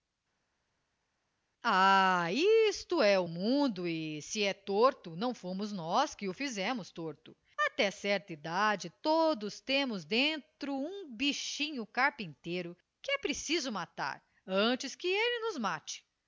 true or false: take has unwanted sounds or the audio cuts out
false